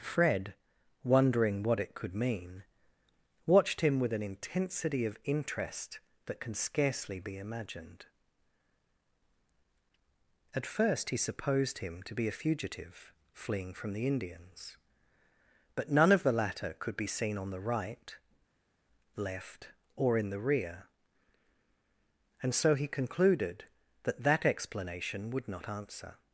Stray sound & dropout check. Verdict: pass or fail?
pass